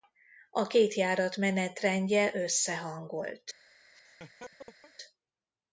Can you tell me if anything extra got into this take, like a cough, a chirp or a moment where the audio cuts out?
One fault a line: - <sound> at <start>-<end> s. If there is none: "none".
- laugh at 3.9-4.9 s